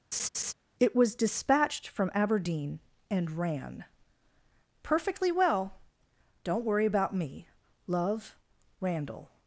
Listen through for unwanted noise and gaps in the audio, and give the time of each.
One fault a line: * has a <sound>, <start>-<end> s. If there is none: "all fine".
* has a laugh, 0.1-0.5 s